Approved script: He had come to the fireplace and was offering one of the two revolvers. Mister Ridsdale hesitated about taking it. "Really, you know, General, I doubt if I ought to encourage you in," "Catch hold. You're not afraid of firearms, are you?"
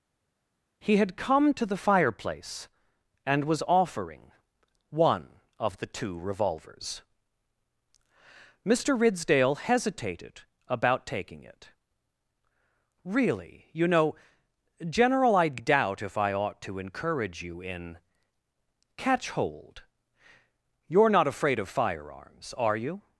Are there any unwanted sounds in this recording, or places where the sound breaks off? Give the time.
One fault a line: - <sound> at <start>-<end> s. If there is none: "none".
none